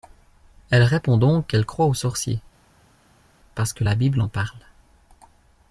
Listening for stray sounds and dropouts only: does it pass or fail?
pass